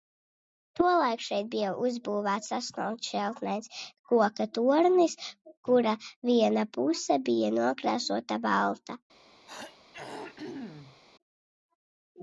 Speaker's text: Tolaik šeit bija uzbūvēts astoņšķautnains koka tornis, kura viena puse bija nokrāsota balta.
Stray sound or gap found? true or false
true